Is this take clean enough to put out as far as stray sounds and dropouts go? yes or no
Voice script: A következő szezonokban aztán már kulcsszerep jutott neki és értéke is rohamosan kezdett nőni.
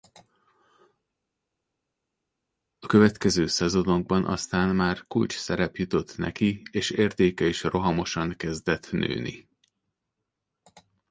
yes